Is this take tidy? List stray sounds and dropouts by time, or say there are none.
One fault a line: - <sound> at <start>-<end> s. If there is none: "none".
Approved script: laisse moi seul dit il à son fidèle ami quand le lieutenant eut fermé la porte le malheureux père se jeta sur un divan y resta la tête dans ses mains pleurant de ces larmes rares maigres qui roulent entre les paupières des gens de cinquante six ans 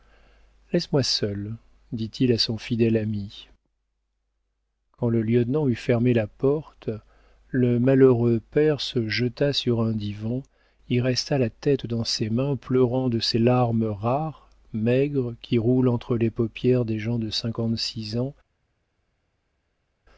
none